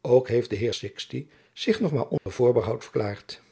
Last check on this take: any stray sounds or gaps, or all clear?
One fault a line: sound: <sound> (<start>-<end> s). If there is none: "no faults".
sound: dropout (2.2-2.3 s)